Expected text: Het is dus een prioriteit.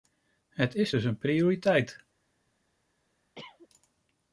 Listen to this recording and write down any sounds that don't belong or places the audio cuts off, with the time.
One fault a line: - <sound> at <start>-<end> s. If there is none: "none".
- cough at 3.4-3.7 s